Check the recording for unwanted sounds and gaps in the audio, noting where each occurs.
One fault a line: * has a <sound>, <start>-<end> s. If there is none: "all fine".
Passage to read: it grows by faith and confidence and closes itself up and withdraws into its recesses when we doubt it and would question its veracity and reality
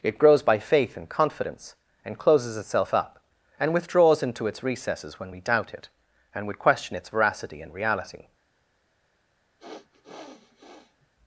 * has a sniff, 9.6-11.1 s